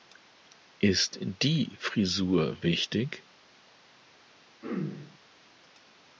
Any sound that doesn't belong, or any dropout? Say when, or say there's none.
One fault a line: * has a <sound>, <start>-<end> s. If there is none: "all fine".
* has a throat clearing, 4.6-5.2 s